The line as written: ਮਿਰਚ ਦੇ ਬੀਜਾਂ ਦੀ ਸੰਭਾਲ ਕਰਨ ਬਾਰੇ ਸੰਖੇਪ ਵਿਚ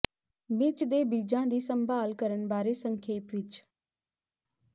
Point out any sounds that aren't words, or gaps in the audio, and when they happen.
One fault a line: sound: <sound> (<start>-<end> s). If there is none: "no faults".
no faults